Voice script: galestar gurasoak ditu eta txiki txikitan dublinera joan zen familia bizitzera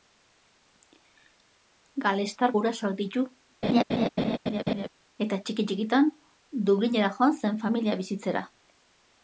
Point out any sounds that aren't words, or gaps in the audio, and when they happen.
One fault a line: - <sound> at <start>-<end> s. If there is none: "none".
- laugh at 3.6-4.9 s